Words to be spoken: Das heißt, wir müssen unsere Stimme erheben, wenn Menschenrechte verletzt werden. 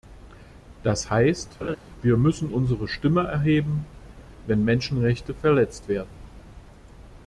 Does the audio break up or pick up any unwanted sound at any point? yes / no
yes